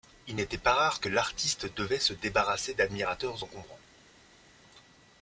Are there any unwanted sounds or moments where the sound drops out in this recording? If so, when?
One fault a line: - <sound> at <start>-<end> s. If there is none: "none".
none